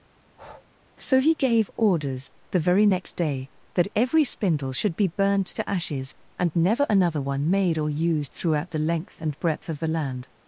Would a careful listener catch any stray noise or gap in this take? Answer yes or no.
yes